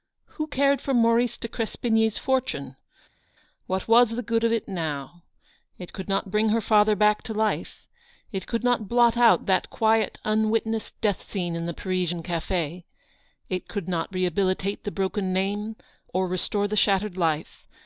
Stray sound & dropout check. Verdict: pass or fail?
pass